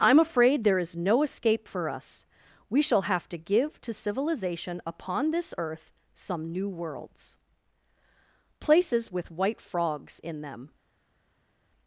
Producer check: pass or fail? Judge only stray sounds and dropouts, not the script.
pass